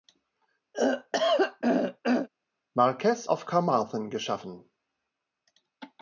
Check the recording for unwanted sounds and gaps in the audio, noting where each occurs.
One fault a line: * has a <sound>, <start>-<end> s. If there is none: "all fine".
* has a throat clearing, 0.7-2.3 s